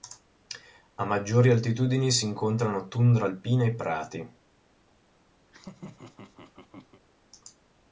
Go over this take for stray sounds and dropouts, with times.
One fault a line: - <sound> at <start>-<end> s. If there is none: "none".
- laugh at 5.5-7.0 s